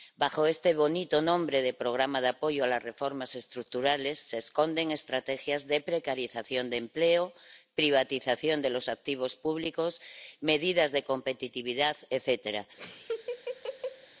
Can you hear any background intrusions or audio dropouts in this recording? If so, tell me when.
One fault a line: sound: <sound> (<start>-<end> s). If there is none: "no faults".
sound: laugh (12.8-14.1 s)